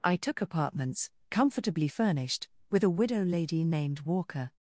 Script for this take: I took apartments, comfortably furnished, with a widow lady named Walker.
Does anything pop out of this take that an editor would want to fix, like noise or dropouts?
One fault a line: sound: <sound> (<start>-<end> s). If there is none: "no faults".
no faults